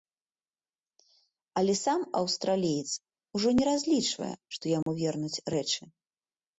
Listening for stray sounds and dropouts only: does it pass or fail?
fail